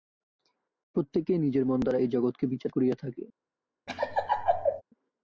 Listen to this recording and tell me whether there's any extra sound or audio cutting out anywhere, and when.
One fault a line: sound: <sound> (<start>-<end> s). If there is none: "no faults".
sound: laugh (3.9-4.8 s)